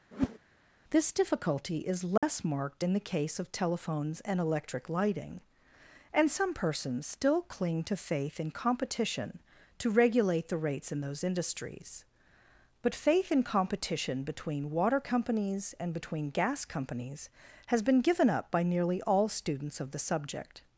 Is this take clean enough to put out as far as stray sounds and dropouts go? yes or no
no